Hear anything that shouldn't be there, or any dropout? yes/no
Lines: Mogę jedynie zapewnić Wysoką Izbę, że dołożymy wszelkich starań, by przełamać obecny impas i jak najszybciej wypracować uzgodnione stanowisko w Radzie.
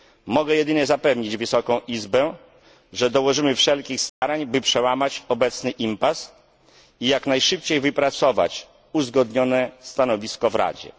yes